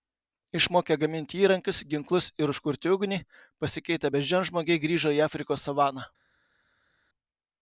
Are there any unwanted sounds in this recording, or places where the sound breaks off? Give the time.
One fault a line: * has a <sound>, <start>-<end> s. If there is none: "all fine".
all fine